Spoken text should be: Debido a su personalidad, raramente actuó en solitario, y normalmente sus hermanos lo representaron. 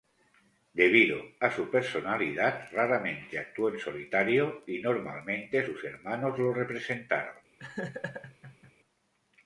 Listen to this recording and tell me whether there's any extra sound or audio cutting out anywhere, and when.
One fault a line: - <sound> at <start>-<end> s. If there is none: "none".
- laugh at 7.6-8.7 s